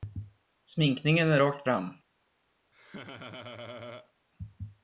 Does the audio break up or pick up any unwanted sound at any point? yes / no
yes